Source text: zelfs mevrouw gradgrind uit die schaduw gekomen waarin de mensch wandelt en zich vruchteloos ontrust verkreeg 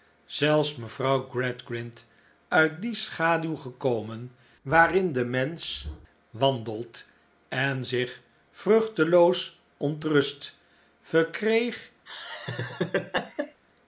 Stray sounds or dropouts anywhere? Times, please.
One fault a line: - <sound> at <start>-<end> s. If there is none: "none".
- laugh at 12.1-13.6 s